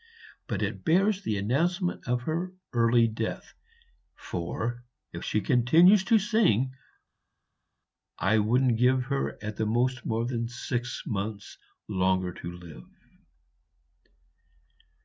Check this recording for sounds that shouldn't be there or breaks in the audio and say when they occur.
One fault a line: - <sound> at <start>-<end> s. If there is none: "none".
none